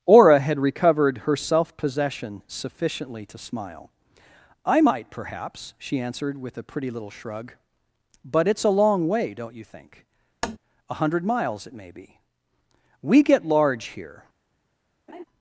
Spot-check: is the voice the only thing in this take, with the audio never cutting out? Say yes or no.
no